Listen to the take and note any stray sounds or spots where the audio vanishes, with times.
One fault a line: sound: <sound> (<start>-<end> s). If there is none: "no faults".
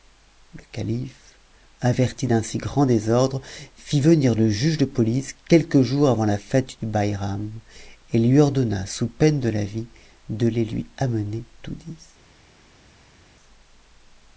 no faults